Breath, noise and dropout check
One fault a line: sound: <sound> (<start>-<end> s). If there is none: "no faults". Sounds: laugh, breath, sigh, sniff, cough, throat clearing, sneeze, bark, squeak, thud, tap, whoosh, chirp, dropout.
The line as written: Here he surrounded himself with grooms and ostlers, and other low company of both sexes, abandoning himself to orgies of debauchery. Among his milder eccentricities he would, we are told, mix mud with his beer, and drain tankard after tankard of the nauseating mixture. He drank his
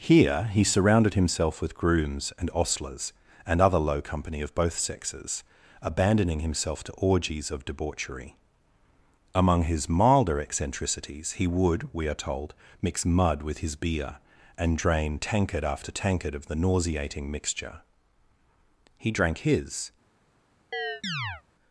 sound: chirp (20.7-21.4 s)